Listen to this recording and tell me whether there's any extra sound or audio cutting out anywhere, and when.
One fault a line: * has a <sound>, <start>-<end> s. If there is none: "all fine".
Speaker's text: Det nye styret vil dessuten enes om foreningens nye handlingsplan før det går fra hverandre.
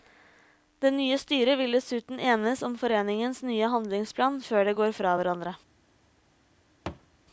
* has a thud, 6.9-7.1 s